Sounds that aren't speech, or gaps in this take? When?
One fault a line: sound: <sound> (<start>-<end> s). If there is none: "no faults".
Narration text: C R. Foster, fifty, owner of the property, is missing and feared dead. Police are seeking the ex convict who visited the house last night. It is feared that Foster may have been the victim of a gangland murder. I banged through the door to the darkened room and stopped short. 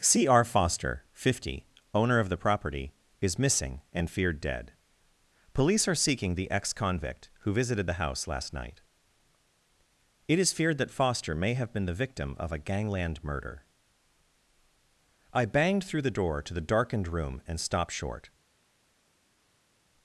no faults